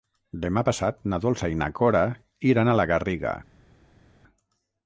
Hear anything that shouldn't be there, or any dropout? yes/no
no